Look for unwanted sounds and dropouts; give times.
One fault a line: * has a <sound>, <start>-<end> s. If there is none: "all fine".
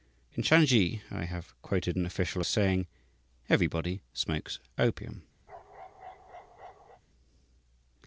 * has a bark, 5.5-7.0 s